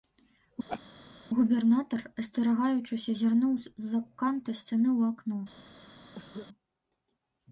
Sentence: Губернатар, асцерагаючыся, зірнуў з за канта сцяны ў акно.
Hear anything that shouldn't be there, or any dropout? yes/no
yes